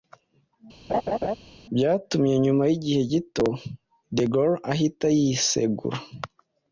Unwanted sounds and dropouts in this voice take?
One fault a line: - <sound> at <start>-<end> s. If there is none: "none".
- laugh at 0.9-1.4 s